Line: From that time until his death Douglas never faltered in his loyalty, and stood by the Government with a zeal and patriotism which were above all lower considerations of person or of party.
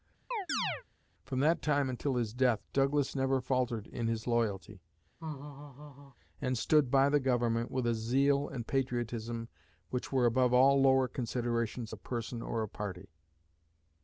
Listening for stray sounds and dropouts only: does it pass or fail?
fail